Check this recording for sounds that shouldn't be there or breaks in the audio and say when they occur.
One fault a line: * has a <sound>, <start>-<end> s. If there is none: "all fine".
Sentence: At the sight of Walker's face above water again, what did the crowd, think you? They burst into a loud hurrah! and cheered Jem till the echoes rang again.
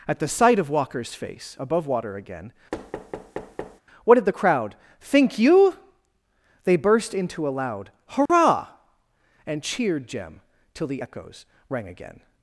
* has a thud, 2.7-3.8 s
* has a dropout, 8.3-8.3 s